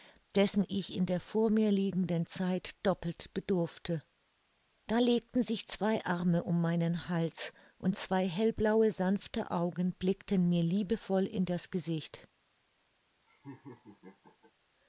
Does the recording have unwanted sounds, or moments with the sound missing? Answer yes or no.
yes